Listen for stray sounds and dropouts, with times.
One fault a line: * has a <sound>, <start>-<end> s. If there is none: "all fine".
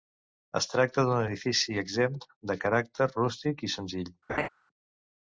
* has a laugh, 4.3-4.5 s